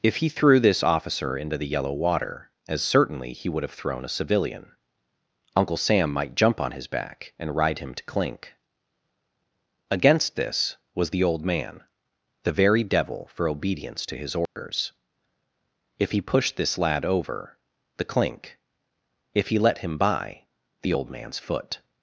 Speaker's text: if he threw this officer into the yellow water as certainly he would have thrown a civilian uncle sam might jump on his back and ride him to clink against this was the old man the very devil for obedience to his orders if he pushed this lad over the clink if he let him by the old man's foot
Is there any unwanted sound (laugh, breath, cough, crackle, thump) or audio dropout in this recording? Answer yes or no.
yes